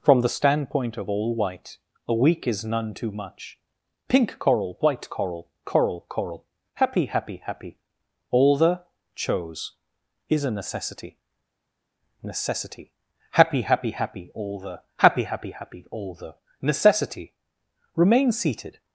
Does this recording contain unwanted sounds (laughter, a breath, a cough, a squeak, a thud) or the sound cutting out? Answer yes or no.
no